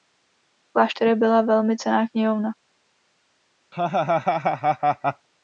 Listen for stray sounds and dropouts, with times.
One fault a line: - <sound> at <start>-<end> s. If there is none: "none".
- laugh at 3.7-5.3 s